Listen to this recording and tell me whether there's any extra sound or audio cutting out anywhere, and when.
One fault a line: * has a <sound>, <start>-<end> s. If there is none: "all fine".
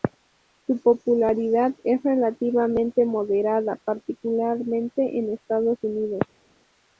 all fine